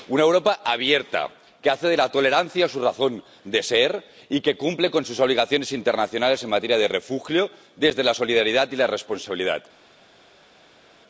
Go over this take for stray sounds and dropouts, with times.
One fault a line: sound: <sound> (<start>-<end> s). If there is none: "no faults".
no faults